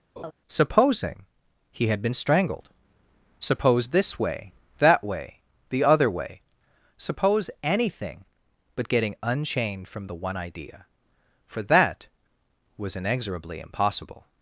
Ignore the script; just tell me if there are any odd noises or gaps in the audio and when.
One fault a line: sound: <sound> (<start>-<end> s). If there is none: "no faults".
sound: laugh (0.2-0.3 s)